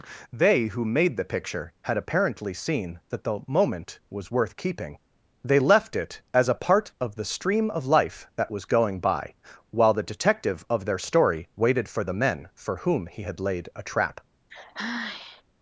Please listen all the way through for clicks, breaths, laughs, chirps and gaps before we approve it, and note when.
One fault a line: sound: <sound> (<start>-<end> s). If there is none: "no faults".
sound: sigh (14.5-15.4 s)